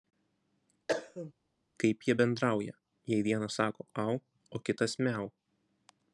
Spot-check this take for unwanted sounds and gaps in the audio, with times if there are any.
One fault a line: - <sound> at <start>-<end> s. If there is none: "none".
- cough at 0.9-1.3 s